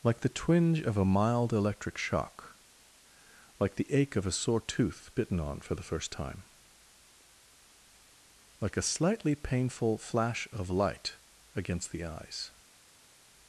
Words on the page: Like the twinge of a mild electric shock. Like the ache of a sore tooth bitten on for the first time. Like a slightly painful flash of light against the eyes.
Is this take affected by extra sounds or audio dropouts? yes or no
no